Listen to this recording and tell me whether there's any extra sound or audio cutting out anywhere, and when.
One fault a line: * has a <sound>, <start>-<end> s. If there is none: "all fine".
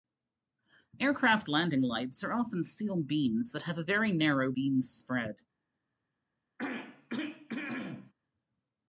* has a throat clearing, 6.6-8.1 s